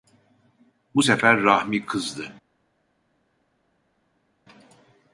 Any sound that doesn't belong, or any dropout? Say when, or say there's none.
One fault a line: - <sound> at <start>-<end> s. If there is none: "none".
none